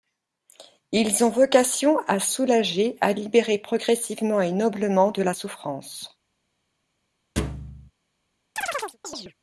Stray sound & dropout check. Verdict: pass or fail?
fail